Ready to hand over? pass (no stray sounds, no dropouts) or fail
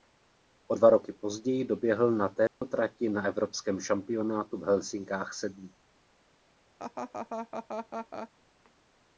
fail